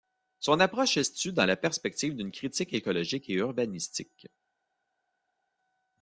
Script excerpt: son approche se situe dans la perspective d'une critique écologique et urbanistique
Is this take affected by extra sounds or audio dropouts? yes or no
no